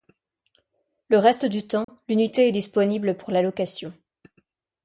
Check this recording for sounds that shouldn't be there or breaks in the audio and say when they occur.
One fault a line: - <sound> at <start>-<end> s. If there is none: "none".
- dropout at 1.8-1.9 s